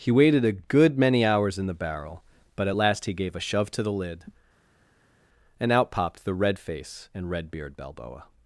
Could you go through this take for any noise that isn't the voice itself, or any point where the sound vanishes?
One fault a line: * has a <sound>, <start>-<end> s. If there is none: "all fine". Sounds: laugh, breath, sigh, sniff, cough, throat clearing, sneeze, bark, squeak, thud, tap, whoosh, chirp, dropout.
all fine